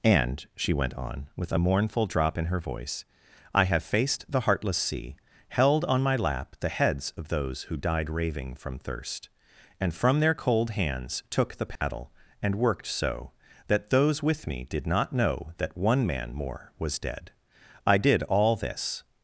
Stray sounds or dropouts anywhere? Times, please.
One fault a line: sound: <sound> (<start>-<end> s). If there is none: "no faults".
sound: dropout (11.8-11.8 s)